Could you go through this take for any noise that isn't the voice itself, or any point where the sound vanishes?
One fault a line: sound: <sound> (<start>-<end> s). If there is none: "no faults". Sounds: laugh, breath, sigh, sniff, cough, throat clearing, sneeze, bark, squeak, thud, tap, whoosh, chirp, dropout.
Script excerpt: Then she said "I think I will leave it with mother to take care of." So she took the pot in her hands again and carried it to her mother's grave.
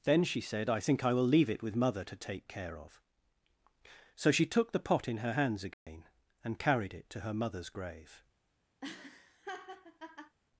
sound: dropout (5.7-5.9 s)
sound: laugh (8.8-10.4 s)